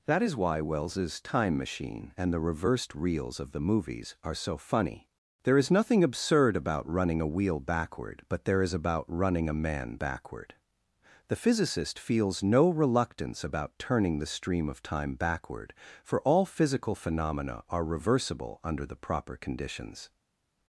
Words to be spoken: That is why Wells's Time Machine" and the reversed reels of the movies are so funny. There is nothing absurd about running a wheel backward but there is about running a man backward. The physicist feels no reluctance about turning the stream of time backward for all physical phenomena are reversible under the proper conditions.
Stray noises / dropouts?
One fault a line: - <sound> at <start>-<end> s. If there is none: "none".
none